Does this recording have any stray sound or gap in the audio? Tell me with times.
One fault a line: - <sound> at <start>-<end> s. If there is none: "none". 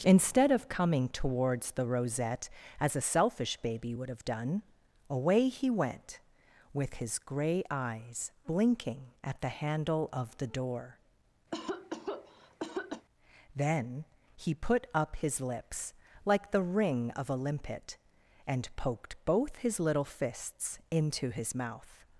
- cough at 11.5-13.1 s